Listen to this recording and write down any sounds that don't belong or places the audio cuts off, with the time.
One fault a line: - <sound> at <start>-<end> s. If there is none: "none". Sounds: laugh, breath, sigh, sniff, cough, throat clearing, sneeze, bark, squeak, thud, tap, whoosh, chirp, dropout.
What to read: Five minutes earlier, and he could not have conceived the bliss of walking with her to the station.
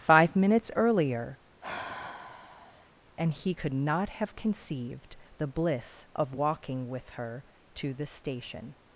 - sigh at 1.6-2.9 s